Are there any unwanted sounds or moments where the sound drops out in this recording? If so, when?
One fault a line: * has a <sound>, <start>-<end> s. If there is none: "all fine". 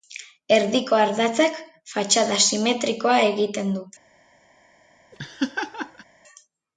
* has a laugh, 5.1-6.1 s